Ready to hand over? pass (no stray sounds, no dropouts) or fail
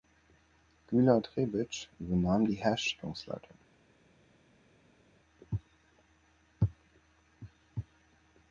pass